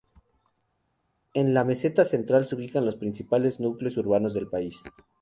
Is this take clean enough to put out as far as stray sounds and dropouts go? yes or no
yes